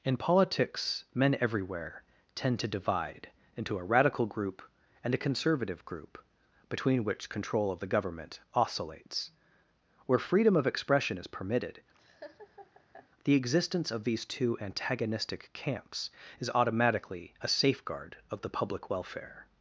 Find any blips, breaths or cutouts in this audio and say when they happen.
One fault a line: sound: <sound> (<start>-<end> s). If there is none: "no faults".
sound: laugh (11.9-13.1 s)